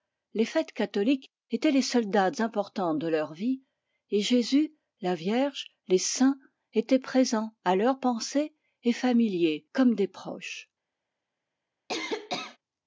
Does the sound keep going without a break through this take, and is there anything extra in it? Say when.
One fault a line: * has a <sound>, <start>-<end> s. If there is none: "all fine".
* has a cough, 11.9-12.6 s